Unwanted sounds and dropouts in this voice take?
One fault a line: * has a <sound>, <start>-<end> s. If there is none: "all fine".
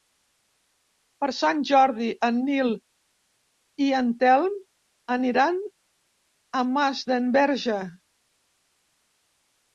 all fine